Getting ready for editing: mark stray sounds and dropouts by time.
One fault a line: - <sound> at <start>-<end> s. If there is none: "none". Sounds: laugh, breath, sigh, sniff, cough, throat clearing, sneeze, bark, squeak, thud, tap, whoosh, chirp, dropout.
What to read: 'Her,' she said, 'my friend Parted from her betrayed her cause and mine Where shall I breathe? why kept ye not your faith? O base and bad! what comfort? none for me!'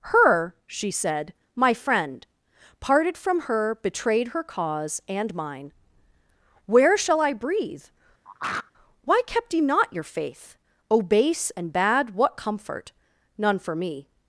- throat clearing at 8.2-8.7 s